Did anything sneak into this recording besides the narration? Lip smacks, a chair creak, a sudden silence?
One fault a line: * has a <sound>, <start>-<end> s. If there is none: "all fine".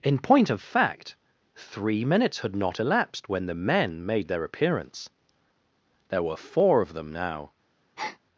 * has a breath, 8.0-8.2 s